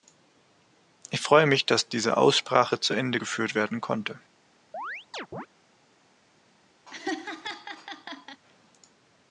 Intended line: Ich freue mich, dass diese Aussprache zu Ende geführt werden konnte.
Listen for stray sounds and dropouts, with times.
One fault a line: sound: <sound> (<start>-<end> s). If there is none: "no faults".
sound: chirp (4.7-5.5 s)
sound: laugh (6.9-8.4 s)